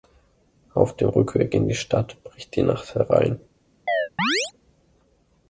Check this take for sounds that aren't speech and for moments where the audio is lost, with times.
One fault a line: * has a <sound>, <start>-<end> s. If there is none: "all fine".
* has a chirp, 3.9-4.5 s